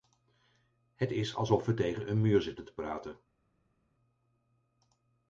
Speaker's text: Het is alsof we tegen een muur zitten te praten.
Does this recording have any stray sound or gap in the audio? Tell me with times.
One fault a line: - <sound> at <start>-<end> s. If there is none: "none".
none